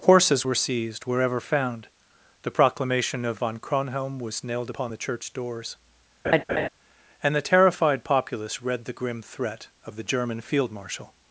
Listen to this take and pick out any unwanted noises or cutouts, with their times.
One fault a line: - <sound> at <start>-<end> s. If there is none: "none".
- laugh at 6.2-6.7 s